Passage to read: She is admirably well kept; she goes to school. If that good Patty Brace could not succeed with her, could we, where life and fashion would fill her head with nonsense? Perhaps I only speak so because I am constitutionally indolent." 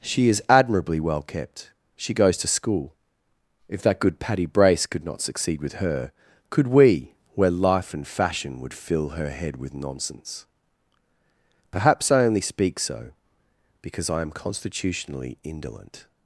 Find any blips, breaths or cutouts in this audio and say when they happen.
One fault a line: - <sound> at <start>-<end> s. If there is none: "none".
none